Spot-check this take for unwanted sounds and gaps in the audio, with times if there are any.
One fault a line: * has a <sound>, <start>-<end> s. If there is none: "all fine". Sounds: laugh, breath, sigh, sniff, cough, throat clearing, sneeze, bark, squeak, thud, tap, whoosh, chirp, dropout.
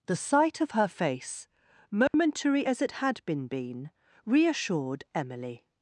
* has a dropout, 2.1-2.1 s